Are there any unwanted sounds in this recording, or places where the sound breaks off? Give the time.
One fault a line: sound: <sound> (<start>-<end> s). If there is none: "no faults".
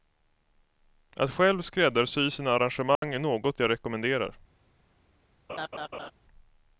sound: dropout (3.0-3.0 s)
sound: laugh (5.5-6.1 s)